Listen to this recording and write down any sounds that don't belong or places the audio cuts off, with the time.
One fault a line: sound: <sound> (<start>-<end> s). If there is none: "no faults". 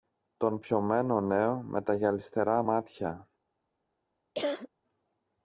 sound: cough (4.3-4.7 s)